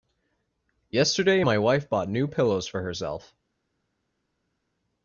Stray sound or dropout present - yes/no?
no